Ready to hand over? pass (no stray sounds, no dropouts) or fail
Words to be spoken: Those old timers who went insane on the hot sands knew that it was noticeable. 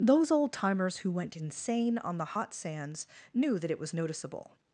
pass